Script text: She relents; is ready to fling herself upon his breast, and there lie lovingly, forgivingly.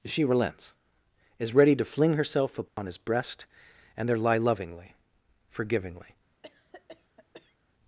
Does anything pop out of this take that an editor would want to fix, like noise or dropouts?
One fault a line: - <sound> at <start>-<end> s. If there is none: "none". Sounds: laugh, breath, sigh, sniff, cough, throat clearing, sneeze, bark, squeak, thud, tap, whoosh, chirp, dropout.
- dropout at 2.7-2.8 s
- cough at 6.4-7.6 s